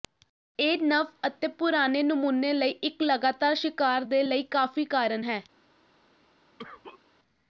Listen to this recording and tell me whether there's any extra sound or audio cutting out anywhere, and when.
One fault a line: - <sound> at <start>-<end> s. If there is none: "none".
- cough at 6.6-7.0 s